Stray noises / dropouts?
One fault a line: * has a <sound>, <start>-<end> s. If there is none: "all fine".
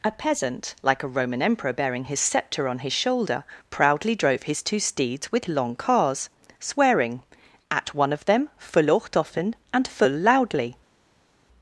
all fine